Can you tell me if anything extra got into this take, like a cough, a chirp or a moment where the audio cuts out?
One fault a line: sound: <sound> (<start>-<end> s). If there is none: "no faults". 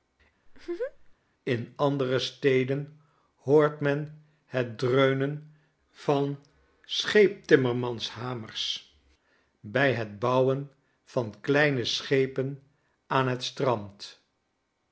sound: laugh (0.5-1.2 s)